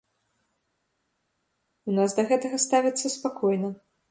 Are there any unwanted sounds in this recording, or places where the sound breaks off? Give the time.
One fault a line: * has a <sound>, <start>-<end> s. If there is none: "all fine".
all fine